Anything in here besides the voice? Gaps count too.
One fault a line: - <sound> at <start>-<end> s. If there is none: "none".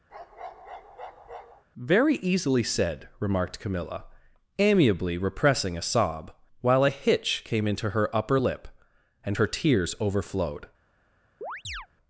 - bark at 0.1-1.6 s
- chirp at 11.4-11.9 s